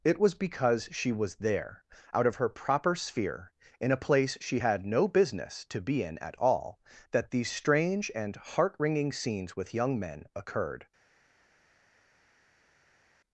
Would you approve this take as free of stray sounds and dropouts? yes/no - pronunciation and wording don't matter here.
yes